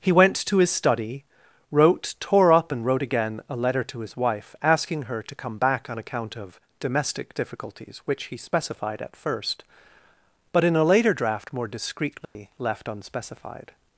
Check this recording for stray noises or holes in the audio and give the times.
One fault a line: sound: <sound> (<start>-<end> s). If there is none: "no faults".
sound: dropout (12.3-12.4 s)